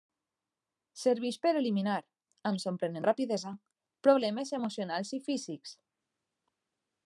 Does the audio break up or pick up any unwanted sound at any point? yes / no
no